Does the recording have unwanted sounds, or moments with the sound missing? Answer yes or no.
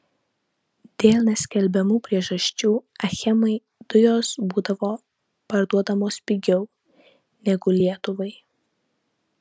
no